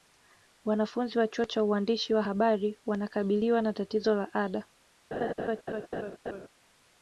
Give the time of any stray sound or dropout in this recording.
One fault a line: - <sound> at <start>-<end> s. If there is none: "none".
- laugh at 5.1-6.5 s